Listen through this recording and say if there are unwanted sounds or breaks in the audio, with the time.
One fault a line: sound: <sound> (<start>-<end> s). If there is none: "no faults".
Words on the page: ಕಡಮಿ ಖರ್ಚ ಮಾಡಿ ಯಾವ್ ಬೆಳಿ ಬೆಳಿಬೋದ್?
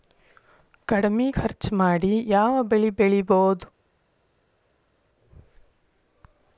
no faults